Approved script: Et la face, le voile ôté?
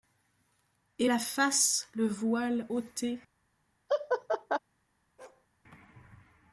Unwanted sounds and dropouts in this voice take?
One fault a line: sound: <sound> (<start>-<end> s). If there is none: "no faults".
sound: laugh (3.9-4.6 s)
sound: bark (5.2-5.5 s)